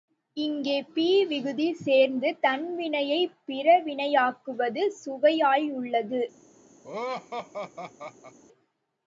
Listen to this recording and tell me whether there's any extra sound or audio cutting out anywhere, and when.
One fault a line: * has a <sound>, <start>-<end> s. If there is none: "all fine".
* has a laugh, 6.8-8.4 s